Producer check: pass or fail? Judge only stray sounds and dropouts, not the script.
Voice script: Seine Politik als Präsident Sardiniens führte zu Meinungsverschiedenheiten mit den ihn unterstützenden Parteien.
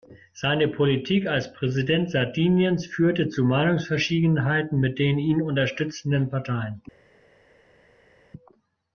pass